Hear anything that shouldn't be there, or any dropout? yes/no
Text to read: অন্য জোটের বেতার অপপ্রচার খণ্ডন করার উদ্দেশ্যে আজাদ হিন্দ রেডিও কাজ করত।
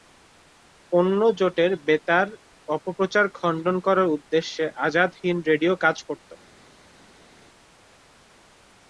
no